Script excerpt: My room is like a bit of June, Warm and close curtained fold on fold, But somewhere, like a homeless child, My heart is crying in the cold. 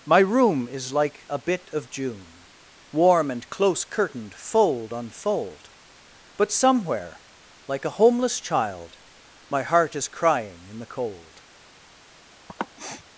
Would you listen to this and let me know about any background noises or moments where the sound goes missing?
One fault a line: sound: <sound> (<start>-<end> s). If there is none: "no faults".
sound: sniff (12.5-13.0 s)